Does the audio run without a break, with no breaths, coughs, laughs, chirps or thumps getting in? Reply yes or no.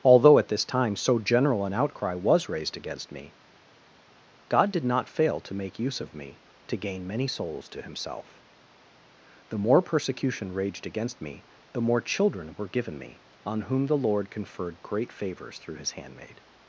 yes